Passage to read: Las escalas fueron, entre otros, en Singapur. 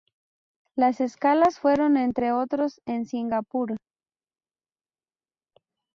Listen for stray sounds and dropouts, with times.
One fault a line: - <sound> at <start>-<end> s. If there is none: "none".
none